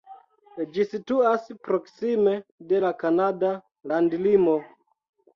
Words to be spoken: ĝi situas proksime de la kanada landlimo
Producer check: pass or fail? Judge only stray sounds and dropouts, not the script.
pass